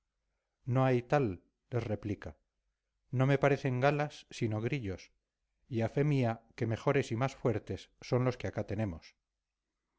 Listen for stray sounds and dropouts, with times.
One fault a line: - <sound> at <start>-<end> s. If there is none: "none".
none